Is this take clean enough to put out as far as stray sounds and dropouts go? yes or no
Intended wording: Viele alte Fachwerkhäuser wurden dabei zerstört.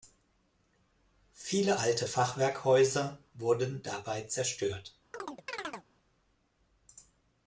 no